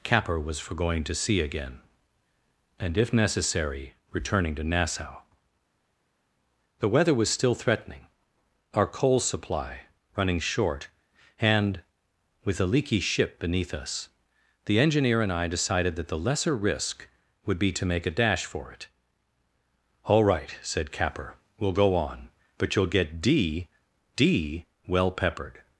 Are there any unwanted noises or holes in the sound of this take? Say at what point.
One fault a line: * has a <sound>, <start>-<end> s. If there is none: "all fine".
all fine